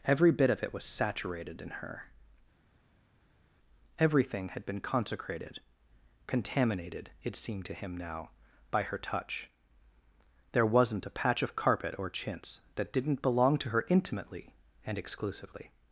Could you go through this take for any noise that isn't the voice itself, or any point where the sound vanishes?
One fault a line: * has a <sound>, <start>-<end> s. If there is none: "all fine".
all fine